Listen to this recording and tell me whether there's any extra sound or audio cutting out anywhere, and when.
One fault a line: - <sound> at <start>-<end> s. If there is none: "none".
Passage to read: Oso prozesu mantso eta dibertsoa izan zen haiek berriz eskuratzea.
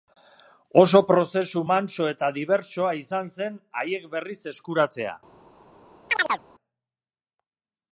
- chirp at 6.1-6.4 s